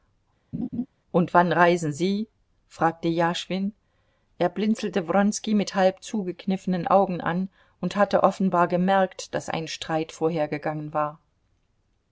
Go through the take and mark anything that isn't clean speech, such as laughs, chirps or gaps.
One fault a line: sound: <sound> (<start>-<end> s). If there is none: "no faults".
sound: laugh (0.5-0.9 s)